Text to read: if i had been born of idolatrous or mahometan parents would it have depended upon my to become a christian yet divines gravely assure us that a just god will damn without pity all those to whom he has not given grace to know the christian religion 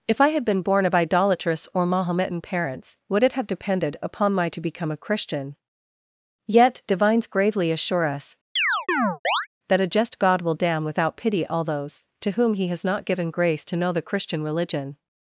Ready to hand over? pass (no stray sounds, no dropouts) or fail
fail